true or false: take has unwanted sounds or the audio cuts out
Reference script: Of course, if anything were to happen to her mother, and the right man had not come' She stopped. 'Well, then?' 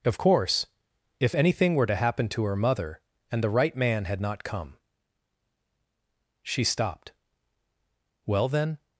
false